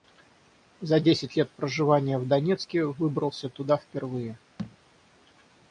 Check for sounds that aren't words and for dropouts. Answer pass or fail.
fail